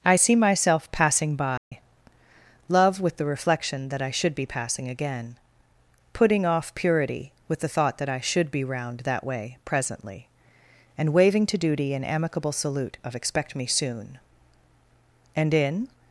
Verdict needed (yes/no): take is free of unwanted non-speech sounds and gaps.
no